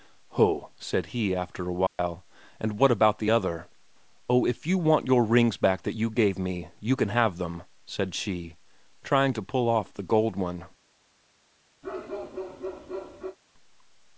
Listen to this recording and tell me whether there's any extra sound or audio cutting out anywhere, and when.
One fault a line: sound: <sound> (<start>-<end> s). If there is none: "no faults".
sound: dropout (1.9-2.0 s)
sound: bark (11.8-13.4 s)